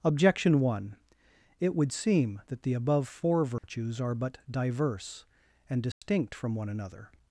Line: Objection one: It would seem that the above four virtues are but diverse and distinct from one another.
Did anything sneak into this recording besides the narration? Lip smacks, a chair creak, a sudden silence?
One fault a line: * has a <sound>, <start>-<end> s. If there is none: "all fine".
* has a dropout, 3.6-3.6 s
* has a dropout, 5.9-6.0 s